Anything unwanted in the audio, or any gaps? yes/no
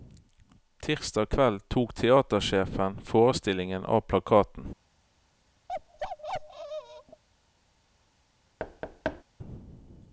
yes